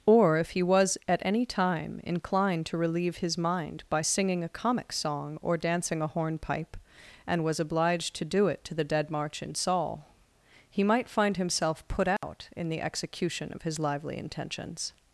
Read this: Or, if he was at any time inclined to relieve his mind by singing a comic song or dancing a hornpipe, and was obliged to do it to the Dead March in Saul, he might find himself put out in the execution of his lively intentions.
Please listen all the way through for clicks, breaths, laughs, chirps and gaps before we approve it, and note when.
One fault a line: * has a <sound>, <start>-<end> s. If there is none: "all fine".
* has a dropout, 12.2-12.2 s